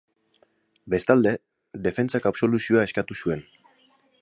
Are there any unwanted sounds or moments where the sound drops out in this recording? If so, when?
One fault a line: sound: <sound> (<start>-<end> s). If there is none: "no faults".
no faults